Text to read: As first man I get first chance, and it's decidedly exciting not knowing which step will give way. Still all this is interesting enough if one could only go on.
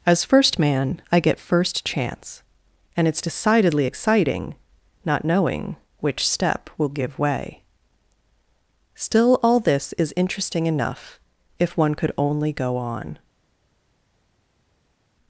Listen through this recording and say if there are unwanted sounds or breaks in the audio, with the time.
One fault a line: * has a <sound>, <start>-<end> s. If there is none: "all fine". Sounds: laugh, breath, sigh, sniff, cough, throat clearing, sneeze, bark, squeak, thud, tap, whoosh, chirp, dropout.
all fine